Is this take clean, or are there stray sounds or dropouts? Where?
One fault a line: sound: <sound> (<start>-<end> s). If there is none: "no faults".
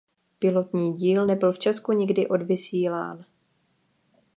no faults